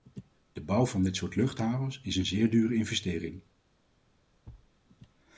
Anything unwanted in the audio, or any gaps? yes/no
yes